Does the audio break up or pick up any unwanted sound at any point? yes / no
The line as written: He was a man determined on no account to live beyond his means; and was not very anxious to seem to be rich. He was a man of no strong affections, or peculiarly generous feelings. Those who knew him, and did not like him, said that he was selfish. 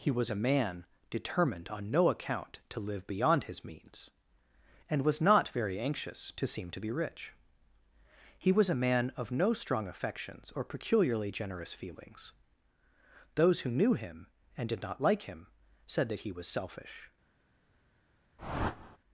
yes